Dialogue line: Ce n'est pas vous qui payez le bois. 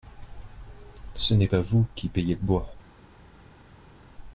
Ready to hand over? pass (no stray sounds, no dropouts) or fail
pass